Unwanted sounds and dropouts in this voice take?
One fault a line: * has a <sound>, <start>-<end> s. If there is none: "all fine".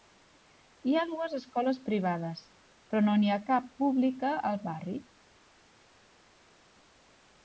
all fine